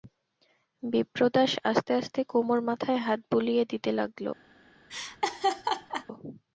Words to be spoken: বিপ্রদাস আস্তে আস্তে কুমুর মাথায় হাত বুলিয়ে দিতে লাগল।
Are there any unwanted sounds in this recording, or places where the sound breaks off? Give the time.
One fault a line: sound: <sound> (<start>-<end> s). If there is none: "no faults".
sound: laugh (4.9-6.1 s)